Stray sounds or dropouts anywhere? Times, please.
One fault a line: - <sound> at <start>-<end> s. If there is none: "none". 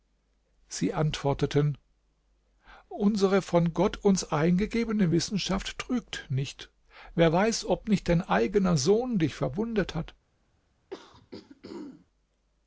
- throat clearing at 10.9-12.1 s